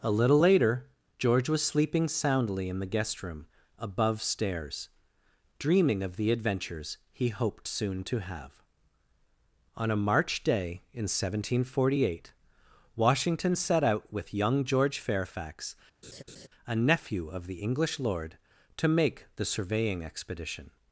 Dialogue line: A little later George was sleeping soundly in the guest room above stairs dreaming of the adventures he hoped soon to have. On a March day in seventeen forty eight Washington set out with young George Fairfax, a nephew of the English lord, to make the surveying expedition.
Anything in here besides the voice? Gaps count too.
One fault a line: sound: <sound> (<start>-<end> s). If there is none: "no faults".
sound: laugh (16.0-16.5 s)